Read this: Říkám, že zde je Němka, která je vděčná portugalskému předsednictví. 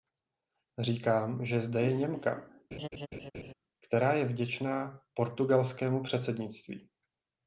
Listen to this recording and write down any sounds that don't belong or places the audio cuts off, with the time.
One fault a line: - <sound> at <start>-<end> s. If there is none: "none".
- laugh at 2.7-3.5 s